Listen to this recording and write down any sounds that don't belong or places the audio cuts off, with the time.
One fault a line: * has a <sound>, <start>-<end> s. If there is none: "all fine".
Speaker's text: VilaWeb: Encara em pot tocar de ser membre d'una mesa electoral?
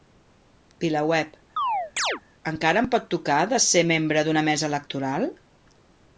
* has a chirp, 1.6-2.2 s